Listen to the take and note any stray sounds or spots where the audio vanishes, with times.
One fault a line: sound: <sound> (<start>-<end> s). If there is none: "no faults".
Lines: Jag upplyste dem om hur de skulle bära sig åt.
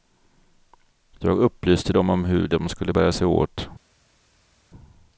no faults